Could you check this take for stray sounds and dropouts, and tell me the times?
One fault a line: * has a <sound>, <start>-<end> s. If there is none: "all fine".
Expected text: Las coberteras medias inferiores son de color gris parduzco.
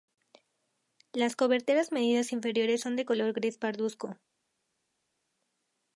all fine